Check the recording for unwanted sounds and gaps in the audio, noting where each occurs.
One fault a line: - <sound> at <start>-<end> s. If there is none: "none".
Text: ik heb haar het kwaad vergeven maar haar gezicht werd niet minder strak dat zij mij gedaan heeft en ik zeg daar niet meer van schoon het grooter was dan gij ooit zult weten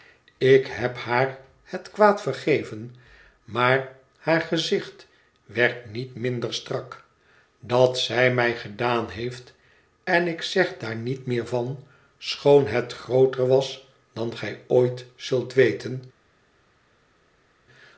none